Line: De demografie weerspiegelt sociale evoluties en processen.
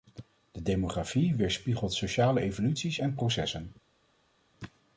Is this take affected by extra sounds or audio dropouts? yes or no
no